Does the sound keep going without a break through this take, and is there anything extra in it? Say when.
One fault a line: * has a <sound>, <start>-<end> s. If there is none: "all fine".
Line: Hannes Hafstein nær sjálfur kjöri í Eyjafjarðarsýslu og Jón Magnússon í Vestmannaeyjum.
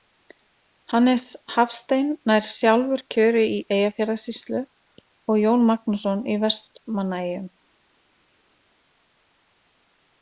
all fine